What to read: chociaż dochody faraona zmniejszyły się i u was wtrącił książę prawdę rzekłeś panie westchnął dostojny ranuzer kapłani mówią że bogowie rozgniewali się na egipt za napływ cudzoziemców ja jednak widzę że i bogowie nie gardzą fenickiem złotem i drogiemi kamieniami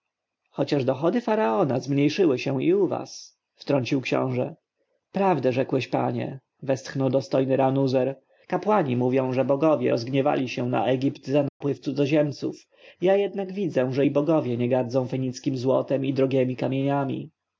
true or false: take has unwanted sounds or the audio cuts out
true